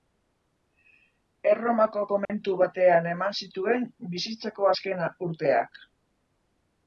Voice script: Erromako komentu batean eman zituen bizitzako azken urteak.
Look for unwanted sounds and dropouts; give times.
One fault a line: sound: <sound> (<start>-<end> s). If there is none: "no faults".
sound: dropout (2.2-2.3 s)